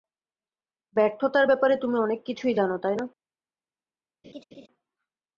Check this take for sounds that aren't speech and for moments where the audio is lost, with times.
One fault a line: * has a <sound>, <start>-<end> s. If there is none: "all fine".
* has a laugh, 4.2-4.7 s